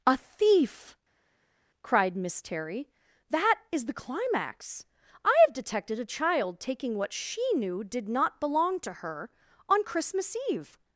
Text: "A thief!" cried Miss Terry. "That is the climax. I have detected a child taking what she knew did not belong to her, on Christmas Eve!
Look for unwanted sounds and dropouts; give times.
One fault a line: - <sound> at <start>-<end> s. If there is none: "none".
none